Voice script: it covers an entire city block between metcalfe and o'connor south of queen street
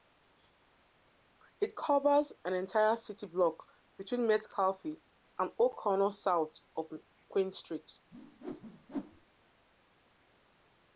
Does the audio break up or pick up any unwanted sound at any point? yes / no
yes